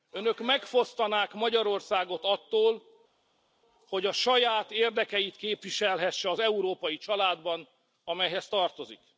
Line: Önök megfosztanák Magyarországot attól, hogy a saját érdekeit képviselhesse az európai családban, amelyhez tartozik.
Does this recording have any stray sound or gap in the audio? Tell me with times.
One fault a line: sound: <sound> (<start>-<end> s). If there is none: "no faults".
no faults